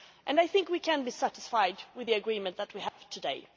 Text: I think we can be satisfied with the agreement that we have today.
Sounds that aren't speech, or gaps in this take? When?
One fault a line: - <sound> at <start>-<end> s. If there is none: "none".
- dropout at 2.9-3.0 s